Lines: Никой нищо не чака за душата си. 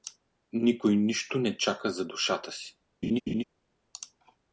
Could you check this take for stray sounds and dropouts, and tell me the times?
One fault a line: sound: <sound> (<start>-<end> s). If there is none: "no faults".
sound: laugh (3.0-3.4 s)